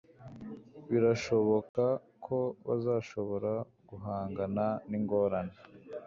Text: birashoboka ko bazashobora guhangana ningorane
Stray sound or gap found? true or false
true